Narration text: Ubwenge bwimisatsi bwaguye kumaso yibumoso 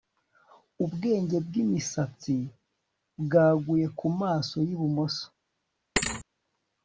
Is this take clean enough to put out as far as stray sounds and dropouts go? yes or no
no